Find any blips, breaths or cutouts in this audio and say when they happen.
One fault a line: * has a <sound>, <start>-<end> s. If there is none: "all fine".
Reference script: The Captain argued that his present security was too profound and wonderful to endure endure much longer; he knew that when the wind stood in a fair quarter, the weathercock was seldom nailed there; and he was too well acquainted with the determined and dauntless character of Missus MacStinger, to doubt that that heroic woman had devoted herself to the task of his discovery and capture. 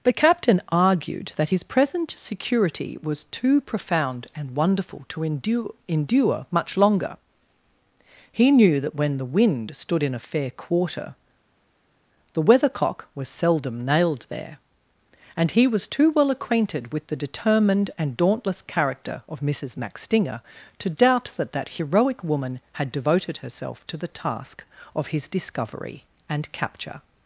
all fine